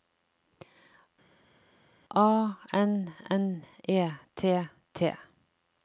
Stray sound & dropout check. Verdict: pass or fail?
pass